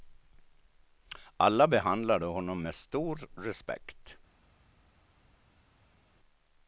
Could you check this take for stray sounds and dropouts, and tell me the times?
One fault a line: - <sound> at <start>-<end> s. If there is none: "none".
none